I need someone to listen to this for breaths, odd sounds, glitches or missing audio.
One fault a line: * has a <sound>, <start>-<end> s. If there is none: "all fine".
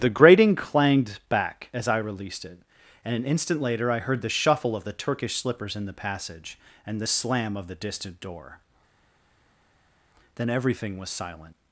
all fine